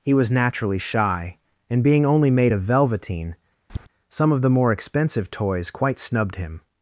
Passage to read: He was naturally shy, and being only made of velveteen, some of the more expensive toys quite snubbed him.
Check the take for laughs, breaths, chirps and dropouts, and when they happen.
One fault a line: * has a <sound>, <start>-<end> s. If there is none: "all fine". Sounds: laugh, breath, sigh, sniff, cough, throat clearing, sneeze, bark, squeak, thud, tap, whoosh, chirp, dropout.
* has a tap, 3.7-3.9 s